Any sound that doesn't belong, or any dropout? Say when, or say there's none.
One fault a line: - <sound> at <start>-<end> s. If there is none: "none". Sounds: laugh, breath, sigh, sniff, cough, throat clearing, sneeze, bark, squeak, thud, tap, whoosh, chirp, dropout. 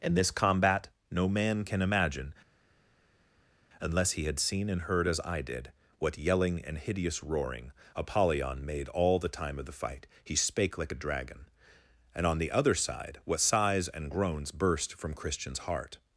none